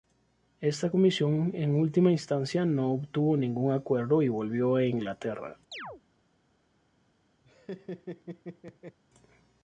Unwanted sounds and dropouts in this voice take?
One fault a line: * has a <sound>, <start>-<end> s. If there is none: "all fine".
* has a chirp, 5.7-6.0 s
* has a laugh, 7.4-9.0 s